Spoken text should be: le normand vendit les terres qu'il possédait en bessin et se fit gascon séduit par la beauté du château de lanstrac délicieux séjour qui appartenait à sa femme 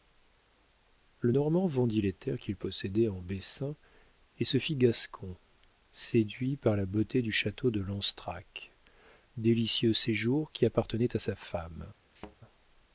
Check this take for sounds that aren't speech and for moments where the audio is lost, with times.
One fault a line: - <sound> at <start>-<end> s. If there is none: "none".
- thud at 12.2-12.4 s